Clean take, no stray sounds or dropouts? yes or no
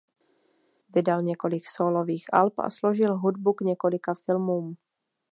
yes